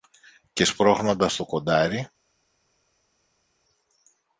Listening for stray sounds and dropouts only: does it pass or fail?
pass